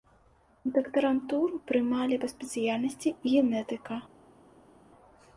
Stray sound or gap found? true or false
false